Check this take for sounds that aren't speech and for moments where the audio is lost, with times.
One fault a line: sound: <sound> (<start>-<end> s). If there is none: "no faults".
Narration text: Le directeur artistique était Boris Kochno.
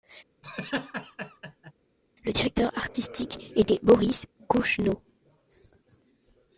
sound: laugh (0.4-1.7 s)